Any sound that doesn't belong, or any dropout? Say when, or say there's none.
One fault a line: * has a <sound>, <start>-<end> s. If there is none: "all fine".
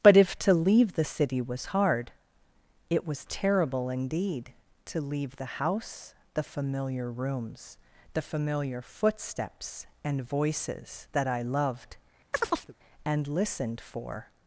* has a chirp, 12.3-12.7 s